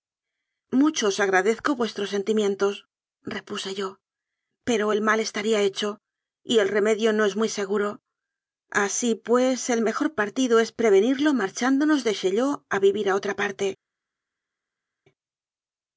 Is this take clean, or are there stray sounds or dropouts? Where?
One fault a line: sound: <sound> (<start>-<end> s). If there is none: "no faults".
no faults